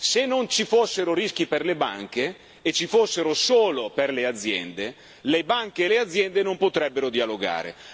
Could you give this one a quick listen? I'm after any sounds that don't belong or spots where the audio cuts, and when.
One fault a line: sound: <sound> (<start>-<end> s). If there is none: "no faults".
no faults